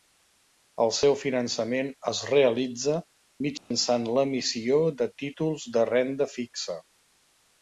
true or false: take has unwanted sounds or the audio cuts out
true